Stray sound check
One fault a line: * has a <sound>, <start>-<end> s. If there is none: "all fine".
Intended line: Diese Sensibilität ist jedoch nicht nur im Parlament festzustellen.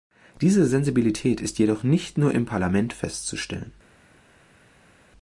all fine